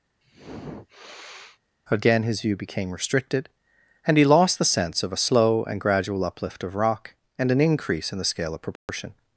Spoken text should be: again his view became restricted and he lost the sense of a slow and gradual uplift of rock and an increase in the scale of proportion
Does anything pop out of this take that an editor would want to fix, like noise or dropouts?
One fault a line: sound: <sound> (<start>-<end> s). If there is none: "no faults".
sound: sniff (0.2-1.6 s)
sound: dropout (8.8-8.9 s)